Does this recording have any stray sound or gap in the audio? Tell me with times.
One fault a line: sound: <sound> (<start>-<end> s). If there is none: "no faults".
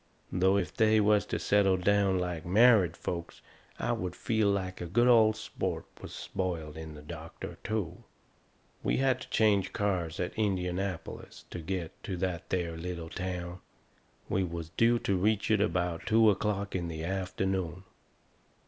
no faults